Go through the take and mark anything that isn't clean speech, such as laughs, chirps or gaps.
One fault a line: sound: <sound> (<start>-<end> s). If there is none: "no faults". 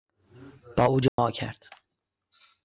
sound: dropout (1.1-1.2 s)